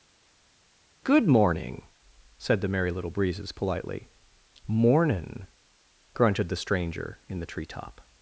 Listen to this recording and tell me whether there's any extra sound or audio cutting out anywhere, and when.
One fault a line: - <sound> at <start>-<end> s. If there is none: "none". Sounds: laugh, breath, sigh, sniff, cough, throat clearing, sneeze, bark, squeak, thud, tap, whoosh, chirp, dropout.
none